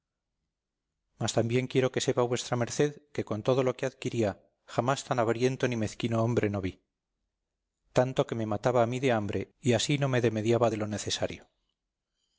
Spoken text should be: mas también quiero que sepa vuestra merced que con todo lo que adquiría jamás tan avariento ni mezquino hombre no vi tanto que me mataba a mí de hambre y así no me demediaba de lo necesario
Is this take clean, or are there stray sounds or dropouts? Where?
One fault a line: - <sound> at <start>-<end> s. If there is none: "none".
none